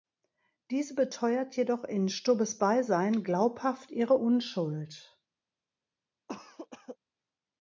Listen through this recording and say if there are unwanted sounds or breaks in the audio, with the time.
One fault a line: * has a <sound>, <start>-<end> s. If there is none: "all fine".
* has a cough, 6.3-7.0 s